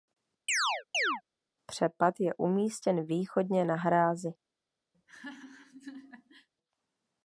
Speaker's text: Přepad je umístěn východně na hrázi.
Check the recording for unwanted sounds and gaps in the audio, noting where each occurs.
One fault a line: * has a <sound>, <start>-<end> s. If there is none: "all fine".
* has a chirp, 0.5-1.2 s
* has a laugh, 4.9-6.5 s